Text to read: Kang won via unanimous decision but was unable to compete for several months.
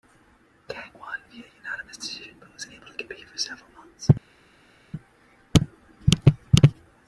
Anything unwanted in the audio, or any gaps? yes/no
no